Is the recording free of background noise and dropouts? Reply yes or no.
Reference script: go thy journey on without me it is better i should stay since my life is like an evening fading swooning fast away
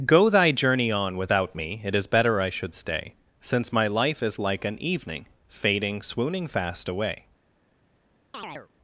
no